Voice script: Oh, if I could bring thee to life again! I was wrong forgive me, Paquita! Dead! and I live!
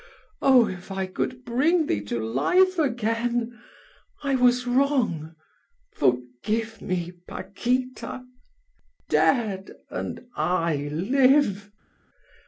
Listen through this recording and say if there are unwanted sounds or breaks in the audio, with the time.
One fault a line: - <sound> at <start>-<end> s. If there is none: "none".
none